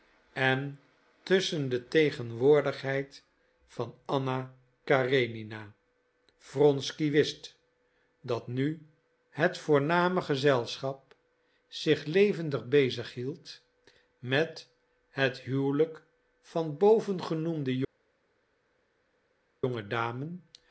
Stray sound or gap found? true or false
false